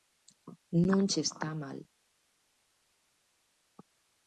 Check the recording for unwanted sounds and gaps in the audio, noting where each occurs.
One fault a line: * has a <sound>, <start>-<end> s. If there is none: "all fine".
all fine